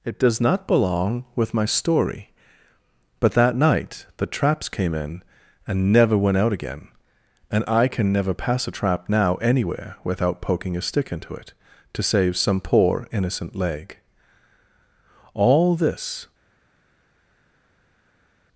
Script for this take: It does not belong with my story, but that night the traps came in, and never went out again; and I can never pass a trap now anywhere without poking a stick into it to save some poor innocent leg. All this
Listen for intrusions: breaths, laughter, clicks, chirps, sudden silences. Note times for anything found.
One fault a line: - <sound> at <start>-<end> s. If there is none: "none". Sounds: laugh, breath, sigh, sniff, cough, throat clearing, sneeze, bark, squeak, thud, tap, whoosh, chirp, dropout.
none